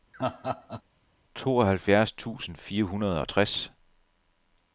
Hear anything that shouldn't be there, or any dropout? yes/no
yes